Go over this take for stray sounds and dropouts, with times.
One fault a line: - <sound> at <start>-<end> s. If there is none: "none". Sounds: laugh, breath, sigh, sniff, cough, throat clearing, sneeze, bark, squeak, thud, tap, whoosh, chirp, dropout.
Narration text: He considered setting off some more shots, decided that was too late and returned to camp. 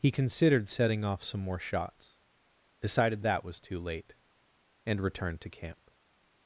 none